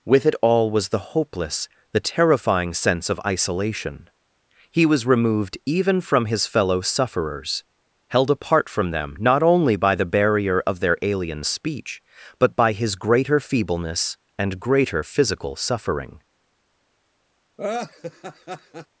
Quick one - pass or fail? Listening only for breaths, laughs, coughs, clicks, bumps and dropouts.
fail